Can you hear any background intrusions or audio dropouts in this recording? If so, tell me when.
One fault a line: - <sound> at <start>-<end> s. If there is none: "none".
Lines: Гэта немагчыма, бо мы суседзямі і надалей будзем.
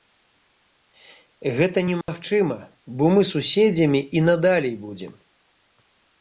- dropout at 2.0-2.1 s